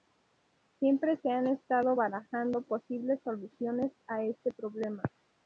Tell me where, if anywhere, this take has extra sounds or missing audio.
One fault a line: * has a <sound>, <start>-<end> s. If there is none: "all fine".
all fine